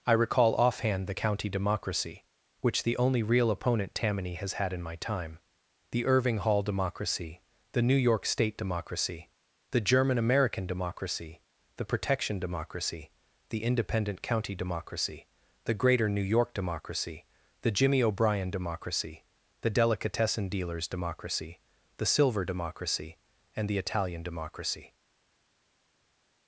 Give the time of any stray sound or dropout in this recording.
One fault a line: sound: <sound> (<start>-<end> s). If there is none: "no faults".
no faults